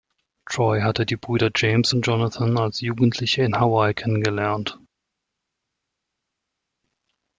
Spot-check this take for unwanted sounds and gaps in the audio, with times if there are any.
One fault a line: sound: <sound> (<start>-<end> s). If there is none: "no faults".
no faults